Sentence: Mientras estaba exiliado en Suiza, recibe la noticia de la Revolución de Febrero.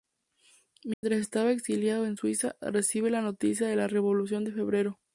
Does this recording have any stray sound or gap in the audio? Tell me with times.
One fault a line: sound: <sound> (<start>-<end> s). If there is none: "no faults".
sound: dropout (0.9-1.0 s)